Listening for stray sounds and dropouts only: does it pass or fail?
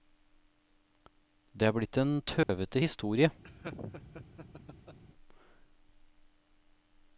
fail